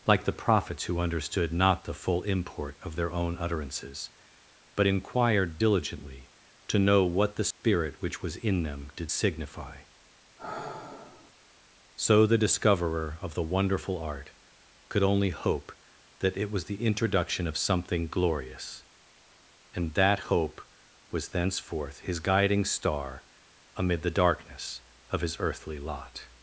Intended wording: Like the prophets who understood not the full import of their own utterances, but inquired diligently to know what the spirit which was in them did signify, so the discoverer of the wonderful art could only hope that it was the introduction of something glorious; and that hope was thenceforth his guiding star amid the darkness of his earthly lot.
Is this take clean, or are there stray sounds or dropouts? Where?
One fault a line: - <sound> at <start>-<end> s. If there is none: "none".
- dropout at 7.5-7.6 s
- sigh at 10.4-11.3 s